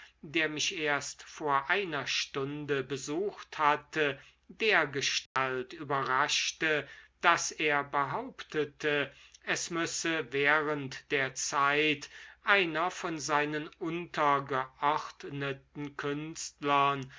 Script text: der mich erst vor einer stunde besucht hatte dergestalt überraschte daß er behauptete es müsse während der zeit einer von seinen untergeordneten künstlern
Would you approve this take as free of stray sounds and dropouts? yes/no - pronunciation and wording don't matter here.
no